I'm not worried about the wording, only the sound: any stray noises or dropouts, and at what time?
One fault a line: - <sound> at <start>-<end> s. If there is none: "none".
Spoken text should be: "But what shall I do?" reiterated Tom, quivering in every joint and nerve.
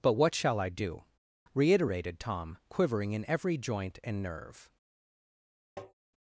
- tap at 5.8-5.9 s